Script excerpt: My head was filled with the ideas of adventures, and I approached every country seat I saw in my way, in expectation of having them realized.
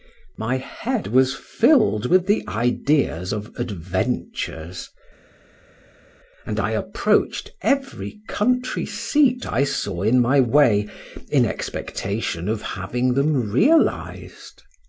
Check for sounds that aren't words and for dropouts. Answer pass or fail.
pass